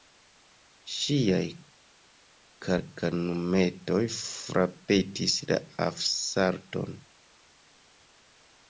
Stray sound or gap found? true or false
false